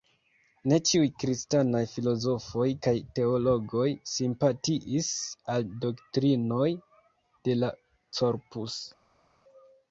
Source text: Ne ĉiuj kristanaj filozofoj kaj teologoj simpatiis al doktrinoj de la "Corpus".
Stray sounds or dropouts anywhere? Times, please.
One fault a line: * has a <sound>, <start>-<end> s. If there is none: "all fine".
all fine